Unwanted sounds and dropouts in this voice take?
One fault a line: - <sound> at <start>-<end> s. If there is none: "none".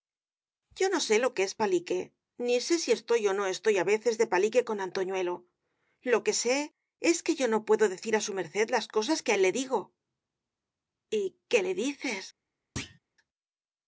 - thud at 12.8-13.0 s